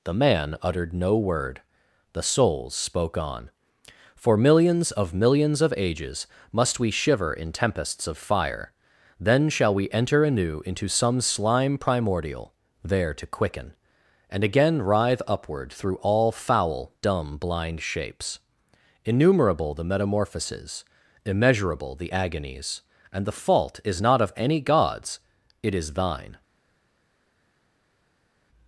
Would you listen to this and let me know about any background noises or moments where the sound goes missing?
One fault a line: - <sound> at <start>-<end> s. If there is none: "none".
none